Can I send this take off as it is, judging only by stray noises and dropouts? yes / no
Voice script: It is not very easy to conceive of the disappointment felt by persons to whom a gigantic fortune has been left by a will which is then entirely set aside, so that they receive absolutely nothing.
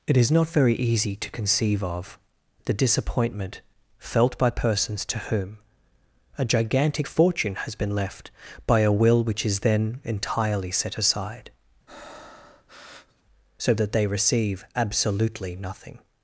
no